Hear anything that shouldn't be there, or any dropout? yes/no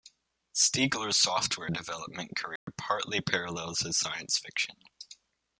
yes